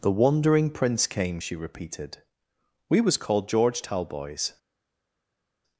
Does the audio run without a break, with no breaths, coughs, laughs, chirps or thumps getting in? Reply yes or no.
yes